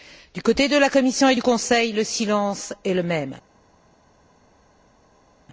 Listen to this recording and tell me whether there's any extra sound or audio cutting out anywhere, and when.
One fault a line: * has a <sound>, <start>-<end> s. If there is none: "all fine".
all fine